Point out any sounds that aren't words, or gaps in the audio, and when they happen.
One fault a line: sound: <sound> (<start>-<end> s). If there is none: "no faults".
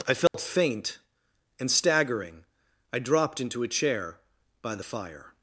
sound: dropout (0.3-0.3 s)